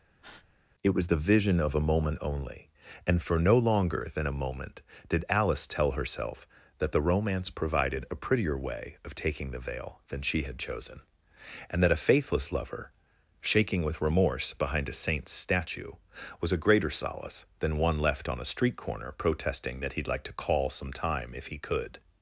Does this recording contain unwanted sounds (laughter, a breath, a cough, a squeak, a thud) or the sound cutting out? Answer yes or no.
yes